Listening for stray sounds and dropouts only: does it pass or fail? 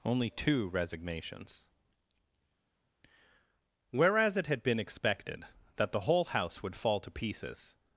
pass